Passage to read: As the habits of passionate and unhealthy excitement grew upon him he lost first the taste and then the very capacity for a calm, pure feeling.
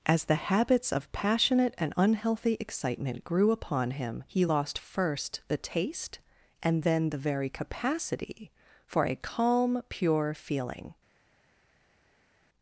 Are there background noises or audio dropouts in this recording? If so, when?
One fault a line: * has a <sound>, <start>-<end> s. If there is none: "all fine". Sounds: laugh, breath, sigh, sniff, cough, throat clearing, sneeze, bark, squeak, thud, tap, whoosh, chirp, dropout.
all fine